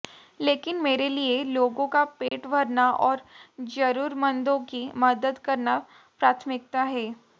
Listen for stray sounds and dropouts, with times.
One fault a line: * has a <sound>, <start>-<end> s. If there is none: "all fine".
* has a dropout, 2.3-2.3 s